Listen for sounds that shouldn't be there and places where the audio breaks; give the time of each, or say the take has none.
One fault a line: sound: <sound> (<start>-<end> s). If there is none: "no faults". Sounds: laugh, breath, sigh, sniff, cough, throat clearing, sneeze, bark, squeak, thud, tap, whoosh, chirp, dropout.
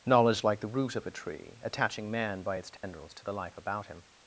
sound: dropout (2.8-2.8 s)